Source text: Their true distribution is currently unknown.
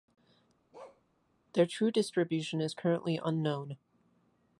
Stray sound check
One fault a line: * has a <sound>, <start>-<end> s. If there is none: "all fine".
* has a bark, 0.7-1.0 s